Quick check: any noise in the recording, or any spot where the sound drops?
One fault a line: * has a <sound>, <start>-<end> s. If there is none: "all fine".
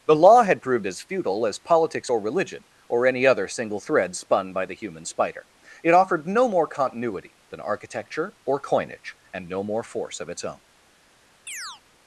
* has a chirp, 11.5-11.8 s